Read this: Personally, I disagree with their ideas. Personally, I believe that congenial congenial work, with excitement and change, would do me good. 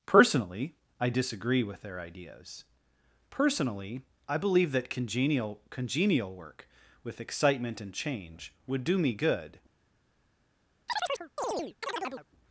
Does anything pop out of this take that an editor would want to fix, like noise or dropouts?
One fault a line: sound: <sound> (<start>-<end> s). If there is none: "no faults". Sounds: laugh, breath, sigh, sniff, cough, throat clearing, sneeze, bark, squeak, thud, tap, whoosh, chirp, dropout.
sound: chirp (10.9-12.3 s)